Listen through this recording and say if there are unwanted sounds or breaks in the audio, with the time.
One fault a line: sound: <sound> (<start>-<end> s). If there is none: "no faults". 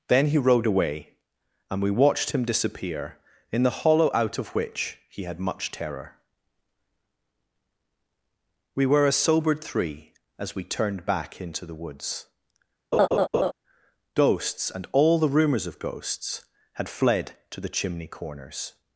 sound: laugh (12.9-13.5 s)